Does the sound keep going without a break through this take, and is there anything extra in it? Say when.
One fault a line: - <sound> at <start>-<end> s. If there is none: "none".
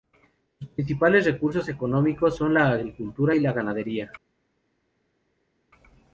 none